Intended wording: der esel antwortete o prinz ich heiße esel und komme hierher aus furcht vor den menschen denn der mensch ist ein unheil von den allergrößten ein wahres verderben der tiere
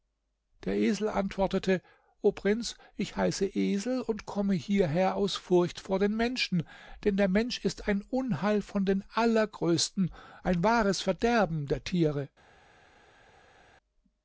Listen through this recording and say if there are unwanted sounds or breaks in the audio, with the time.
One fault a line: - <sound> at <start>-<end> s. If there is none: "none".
none